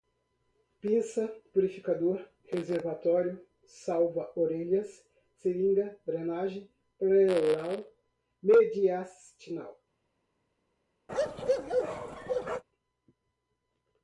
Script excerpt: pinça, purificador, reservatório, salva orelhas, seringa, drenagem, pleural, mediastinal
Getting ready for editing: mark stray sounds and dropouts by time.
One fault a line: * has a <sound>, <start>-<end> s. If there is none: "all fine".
* has a bark, 11.1-12.6 s